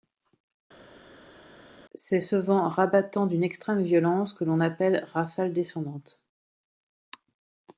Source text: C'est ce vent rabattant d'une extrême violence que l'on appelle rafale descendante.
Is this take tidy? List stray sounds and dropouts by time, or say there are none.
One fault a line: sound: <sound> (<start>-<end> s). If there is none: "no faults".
no faults